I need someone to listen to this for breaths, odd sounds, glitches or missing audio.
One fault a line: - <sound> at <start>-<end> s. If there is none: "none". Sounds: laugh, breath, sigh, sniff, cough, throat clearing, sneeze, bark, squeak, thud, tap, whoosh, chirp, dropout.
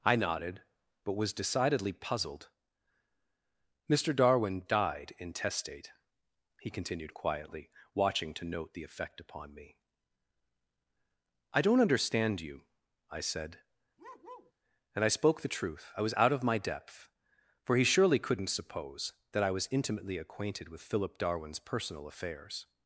- bark at 14.0-14.5 s